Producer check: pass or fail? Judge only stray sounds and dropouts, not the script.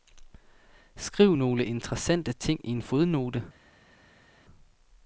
pass